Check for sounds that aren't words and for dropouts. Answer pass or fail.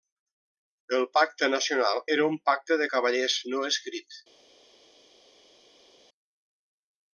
pass